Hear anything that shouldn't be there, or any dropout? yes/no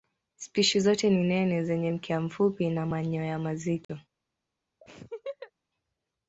yes